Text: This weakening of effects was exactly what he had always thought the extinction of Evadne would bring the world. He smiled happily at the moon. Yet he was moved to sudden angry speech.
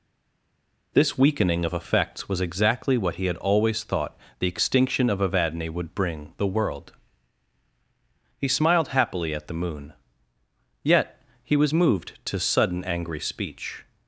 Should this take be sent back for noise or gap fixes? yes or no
no